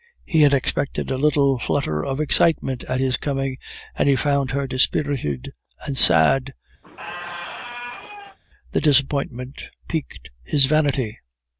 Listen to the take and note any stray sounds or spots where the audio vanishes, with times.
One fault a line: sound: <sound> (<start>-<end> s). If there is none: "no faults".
sound: squeak (6.8-8.4 s)